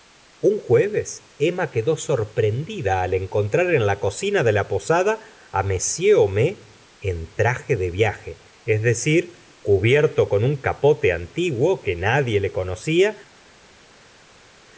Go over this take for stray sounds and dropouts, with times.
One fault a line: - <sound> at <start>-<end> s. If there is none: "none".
none